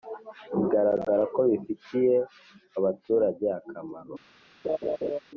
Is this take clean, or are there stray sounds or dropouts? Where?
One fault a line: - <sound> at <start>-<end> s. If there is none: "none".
- laugh at 4.6-5.2 s